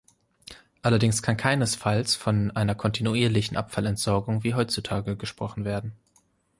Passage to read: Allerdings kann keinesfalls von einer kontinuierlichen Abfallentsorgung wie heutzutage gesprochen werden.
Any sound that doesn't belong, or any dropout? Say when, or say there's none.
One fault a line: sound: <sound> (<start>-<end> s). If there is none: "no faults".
no faults